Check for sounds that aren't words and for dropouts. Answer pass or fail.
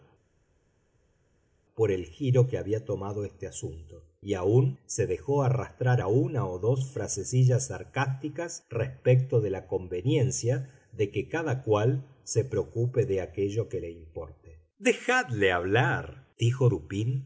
pass